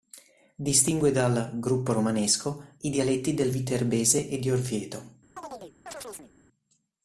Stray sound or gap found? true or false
true